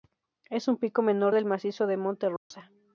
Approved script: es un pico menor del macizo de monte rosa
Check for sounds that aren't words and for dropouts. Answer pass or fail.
fail